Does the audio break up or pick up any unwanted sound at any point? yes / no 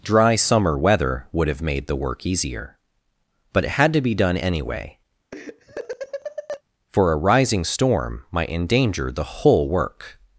yes